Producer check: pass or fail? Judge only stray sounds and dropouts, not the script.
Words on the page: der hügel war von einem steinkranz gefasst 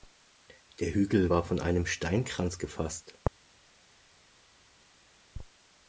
pass